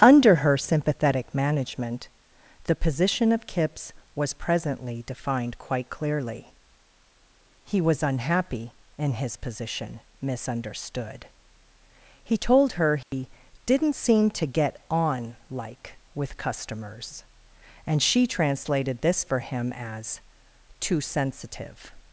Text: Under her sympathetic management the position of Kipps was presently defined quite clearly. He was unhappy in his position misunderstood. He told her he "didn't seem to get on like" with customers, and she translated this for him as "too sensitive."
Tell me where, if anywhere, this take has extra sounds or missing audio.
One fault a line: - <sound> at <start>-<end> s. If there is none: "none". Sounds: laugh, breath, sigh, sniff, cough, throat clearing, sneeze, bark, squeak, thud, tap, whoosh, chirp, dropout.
- dropout at 13.0-13.1 s